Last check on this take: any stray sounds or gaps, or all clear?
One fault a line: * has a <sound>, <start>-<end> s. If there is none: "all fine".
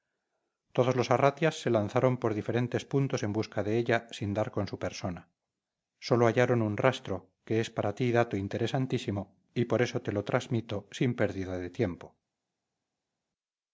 all fine